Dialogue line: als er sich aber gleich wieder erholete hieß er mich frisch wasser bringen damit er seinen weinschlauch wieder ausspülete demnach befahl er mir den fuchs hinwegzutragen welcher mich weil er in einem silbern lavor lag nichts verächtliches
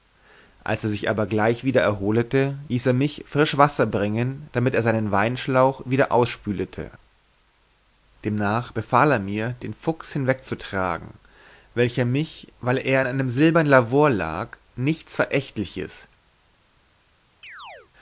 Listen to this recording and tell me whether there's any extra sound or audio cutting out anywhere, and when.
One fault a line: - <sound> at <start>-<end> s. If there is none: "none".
- chirp at 17.4-17.9 s